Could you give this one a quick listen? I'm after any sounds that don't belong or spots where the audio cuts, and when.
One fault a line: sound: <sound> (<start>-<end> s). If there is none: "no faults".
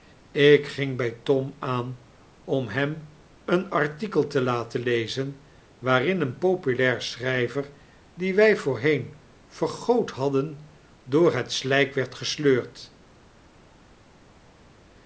no faults